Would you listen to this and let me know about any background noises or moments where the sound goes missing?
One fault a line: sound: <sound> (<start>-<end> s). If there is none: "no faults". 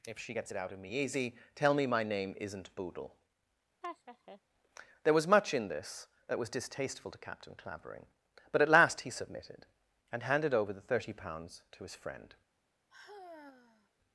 sound: laugh (3.8-4.4 s)
sound: sigh (12.9-13.9 s)